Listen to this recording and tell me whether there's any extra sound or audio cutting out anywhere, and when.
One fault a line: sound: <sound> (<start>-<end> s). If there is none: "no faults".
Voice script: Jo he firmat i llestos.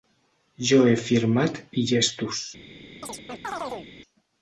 sound: chirp (3.0-3.9 s)